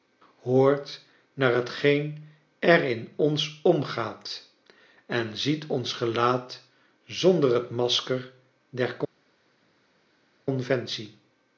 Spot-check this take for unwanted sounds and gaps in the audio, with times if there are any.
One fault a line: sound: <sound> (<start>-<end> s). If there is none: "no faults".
no faults